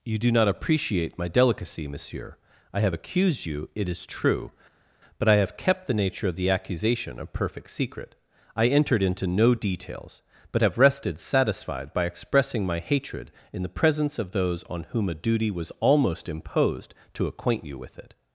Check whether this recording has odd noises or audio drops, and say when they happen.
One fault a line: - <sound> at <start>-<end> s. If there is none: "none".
none